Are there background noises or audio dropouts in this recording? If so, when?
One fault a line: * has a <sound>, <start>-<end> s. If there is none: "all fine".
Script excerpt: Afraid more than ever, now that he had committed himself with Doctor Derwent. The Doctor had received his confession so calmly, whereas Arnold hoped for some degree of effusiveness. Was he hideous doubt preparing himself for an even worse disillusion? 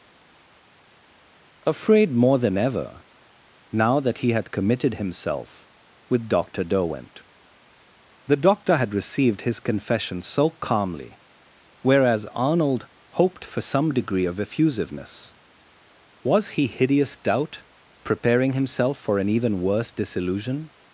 all fine